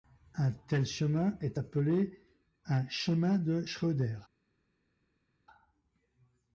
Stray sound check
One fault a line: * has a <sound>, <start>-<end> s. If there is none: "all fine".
all fine